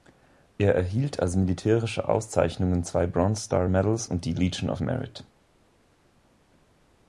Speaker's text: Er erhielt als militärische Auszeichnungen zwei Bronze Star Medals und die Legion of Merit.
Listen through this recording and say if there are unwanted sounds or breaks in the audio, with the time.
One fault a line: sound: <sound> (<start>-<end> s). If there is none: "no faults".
no faults